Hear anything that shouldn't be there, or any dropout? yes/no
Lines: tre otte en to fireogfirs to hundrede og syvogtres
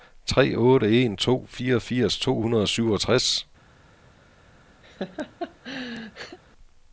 yes